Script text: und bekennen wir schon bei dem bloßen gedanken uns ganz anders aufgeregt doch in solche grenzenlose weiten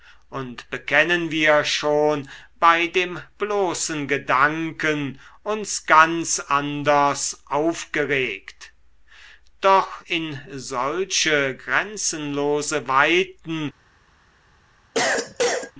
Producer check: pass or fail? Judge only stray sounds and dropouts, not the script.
fail